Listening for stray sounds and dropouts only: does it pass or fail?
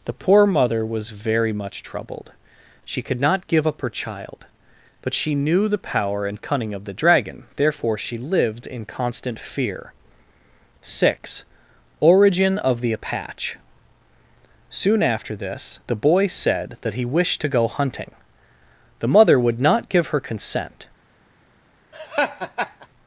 fail